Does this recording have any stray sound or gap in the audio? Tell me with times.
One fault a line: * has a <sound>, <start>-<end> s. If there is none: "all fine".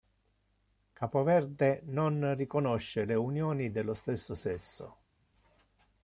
all fine